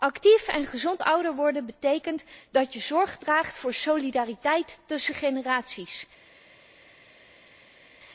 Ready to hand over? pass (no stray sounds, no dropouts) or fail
pass